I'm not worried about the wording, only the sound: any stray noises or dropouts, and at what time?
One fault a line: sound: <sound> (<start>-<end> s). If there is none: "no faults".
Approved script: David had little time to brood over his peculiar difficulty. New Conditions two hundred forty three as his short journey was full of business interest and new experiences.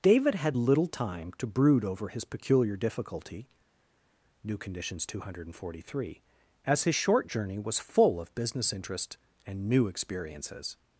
no faults